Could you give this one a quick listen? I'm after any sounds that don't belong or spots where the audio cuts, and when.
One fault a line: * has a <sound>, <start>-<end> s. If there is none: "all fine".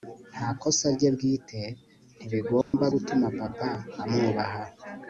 * has a dropout, 2.6-2.7 s